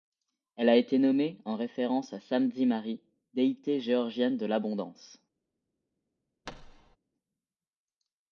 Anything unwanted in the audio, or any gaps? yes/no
yes